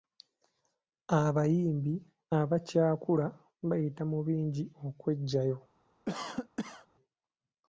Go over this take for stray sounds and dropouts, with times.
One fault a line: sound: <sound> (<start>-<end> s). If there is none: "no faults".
sound: cough (6.1-6.9 s)